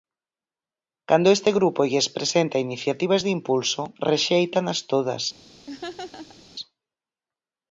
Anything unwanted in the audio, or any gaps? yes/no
yes